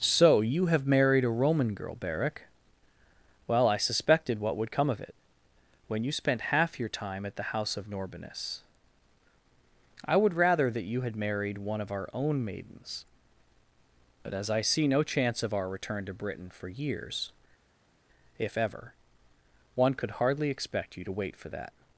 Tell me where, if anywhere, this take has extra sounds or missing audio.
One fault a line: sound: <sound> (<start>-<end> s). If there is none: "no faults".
no faults